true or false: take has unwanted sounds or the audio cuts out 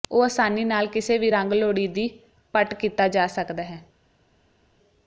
false